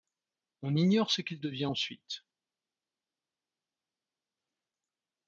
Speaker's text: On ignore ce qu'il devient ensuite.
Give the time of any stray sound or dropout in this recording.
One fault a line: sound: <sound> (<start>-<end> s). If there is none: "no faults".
no faults